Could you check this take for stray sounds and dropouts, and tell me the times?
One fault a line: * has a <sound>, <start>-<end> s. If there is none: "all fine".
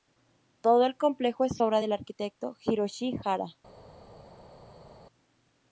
all fine